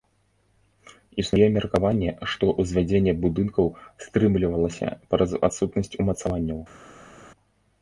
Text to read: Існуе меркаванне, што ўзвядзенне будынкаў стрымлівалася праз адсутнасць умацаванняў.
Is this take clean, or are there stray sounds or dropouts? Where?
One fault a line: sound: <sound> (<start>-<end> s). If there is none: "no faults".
no faults